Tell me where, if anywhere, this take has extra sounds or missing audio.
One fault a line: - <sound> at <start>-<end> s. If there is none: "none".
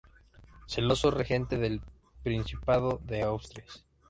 none